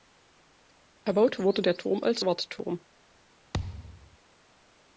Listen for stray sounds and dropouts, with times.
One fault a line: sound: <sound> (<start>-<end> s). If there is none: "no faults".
sound: thud (3.5-4.2 s)